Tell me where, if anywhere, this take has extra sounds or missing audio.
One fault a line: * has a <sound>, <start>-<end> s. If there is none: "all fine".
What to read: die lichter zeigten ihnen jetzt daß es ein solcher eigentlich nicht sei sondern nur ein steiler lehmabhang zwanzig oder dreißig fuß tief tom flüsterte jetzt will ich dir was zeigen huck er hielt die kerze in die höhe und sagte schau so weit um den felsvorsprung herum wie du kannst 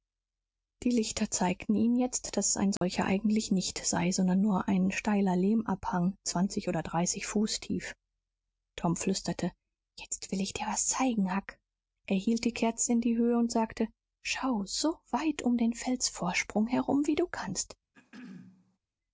* has a dropout, 2.8-2.8 s
* has a throat clearing, 17.9-18.8 s